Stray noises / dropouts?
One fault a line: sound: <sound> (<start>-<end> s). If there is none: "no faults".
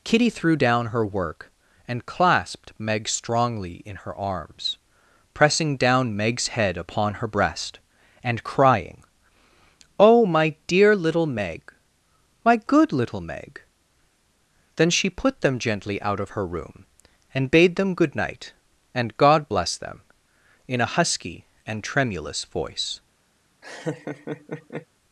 sound: laugh (23.6-24.9 s)